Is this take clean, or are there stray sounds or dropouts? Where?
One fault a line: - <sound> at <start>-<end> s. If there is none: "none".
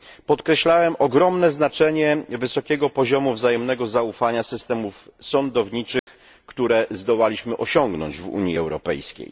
- dropout at 6.0-6.1 s